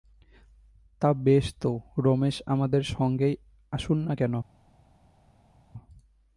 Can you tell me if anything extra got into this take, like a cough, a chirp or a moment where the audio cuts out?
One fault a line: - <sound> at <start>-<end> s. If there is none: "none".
none